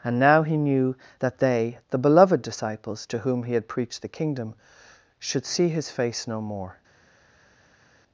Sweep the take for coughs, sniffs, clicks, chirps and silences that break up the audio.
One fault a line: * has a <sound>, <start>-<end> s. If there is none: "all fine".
all fine